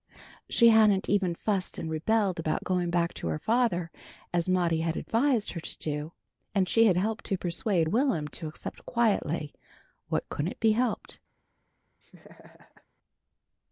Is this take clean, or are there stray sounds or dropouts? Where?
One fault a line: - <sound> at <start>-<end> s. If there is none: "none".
- laugh at 12.0-12.9 s